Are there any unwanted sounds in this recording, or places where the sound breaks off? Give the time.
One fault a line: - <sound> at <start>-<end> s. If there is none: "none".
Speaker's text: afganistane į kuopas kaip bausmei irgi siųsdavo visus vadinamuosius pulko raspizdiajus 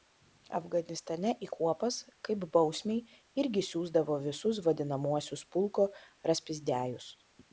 none